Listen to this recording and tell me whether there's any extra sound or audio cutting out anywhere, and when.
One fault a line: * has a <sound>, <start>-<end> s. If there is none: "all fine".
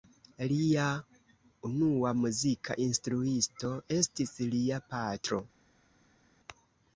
all fine